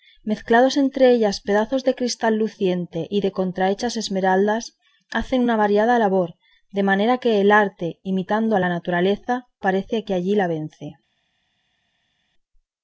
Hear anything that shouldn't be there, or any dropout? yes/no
no